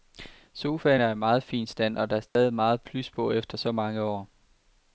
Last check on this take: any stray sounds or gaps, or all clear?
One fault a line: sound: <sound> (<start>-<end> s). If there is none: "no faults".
sound: dropout (2.3-2.4 s)